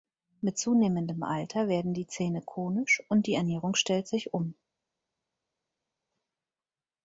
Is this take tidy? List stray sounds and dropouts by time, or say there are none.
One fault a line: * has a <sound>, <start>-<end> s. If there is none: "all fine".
all fine